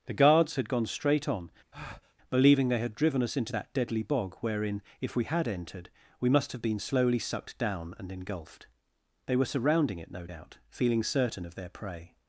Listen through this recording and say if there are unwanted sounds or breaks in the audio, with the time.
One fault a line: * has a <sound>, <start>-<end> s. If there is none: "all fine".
* has a breath, 1.7-2.1 s